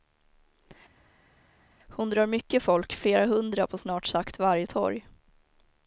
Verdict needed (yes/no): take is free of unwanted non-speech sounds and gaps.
yes